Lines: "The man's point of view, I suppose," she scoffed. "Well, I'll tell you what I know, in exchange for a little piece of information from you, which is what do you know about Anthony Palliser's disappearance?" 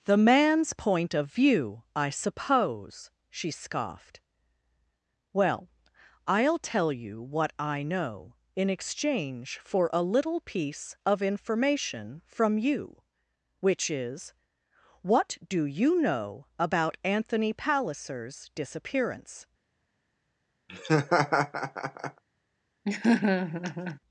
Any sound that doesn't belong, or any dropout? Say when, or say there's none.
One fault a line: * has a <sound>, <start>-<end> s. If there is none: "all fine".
* has a laugh, 20.7-22.2 s
* has a laugh, 22.8-24.0 s